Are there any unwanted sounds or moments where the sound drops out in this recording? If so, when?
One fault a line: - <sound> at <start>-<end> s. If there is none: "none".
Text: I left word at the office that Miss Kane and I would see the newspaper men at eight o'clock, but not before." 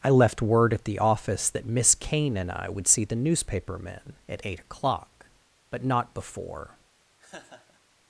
- laugh at 7.2-7.8 s